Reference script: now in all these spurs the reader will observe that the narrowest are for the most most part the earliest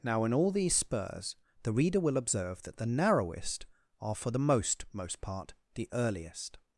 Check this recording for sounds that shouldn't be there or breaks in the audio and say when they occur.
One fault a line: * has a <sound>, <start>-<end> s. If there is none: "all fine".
all fine